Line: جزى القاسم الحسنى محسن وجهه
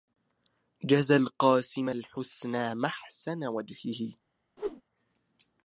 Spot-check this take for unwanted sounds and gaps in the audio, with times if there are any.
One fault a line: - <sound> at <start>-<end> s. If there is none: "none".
- whoosh at 4.6-4.8 s